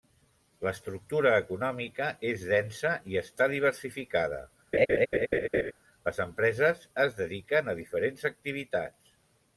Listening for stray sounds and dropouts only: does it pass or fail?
fail